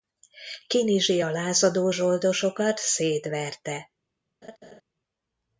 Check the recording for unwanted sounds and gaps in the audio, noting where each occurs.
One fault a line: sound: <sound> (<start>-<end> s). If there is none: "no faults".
sound: laugh (4.4-4.8 s)